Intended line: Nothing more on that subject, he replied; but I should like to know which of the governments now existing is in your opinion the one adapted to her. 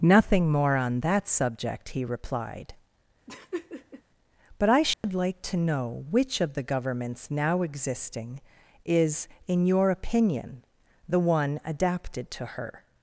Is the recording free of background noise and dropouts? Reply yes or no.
no